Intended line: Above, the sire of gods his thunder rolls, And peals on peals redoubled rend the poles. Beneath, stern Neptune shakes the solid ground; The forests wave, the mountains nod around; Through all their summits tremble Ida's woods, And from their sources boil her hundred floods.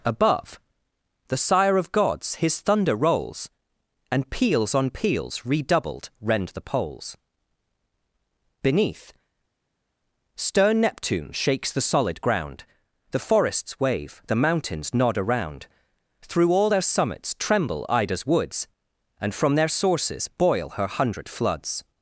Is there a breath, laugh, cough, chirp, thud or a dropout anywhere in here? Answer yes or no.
no